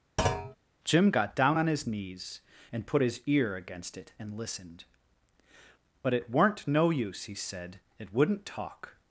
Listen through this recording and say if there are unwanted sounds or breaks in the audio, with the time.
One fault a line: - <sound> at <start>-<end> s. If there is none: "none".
- thud at 0.2-0.6 s